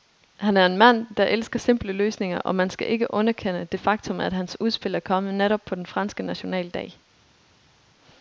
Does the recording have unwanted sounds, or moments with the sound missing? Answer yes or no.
no